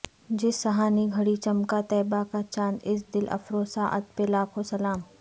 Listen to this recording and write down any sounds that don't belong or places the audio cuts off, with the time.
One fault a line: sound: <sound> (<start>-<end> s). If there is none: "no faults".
no faults